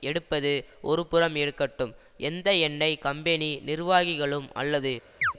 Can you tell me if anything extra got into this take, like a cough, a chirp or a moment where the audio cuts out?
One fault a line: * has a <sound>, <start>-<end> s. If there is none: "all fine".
* has a chirp, 5.2-5.3 s